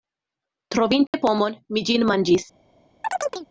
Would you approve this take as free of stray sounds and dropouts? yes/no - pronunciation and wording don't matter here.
no